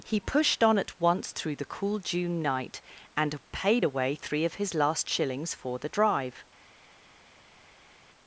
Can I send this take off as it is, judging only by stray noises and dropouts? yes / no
yes